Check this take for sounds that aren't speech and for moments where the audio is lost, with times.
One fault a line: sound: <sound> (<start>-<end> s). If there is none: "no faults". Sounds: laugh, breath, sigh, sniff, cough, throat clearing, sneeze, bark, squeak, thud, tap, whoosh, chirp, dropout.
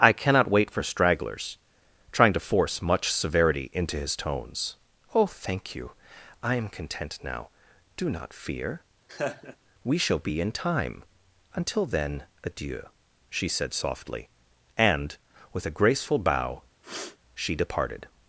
sound: laugh (9.1-9.6 s)
sound: sniff (16.8-17.2 s)